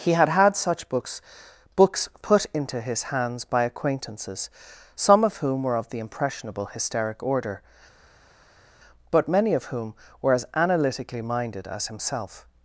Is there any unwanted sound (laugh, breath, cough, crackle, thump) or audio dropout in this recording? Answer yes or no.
no